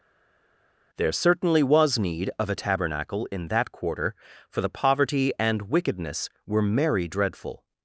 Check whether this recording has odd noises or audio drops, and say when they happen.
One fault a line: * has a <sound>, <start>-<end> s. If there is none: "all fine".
all fine